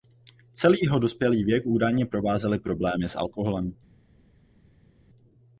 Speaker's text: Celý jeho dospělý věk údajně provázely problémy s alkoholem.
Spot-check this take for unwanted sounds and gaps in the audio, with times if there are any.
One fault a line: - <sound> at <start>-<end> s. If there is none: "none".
none